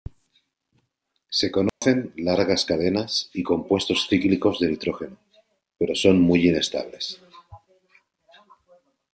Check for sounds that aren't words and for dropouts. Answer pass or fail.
fail